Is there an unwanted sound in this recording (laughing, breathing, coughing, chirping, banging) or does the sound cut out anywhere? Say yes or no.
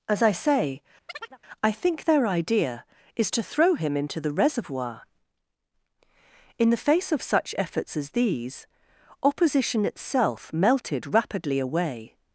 yes